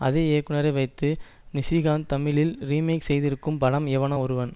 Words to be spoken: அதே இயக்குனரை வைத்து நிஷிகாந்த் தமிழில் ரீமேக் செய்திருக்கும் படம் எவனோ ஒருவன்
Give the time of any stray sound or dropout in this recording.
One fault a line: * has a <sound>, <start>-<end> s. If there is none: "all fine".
all fine